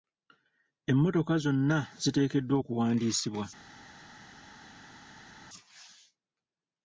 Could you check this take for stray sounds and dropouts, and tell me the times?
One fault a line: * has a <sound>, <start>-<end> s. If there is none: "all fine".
all fine